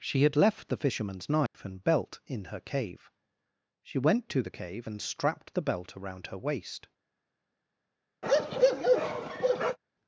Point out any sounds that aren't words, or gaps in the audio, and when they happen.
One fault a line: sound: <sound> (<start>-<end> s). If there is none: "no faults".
sound: dropout (1.5-1.5 s)
sound: bark (8.2-9.8 s)